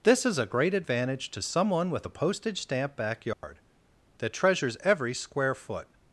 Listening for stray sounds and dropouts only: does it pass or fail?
fail